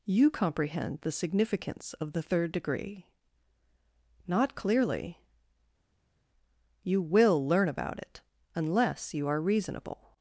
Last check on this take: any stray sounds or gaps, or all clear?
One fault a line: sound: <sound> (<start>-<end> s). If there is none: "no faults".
no faults